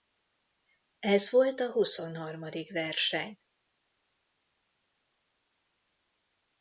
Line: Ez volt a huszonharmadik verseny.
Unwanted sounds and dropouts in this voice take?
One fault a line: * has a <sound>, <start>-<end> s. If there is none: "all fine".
all fine